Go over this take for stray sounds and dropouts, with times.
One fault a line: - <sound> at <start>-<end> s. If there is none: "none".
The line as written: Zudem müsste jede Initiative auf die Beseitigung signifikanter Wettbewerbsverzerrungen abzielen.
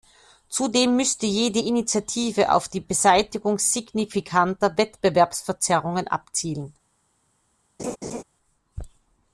- laugh at 7.8-8.2 s